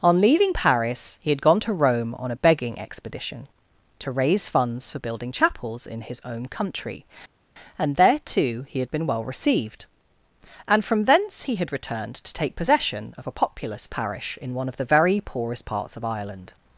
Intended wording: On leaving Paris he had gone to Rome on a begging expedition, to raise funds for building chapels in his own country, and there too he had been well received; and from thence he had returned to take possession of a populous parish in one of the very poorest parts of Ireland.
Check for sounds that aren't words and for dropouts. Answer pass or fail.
pass